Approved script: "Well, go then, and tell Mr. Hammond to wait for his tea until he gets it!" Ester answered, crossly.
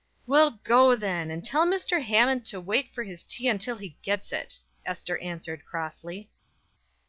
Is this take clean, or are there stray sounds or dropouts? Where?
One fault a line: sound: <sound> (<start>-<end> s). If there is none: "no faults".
no faults